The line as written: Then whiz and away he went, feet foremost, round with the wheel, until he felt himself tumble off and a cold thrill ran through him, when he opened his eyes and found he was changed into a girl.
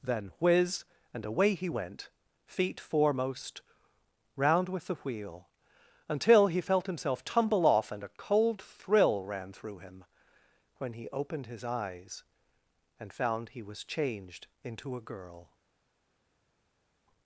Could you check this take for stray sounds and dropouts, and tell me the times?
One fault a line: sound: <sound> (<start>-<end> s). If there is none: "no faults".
no faults